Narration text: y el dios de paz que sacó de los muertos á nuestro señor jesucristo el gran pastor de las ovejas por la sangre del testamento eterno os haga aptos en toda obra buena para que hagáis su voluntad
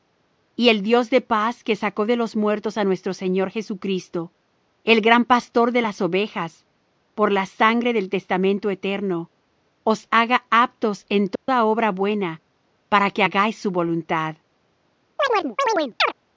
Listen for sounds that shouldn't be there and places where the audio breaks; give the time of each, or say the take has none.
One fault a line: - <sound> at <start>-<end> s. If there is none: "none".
- dropout at 11.4-11.5 s
- chirp at 15.2-16.1 s